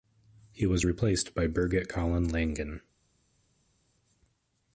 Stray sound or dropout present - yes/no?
no